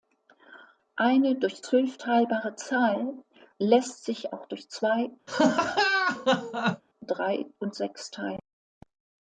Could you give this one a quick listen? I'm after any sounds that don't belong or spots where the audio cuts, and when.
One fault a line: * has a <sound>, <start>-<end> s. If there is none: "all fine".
* has a laugh, 5.3-6.8 s